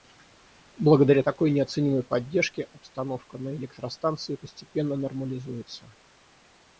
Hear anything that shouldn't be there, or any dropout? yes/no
no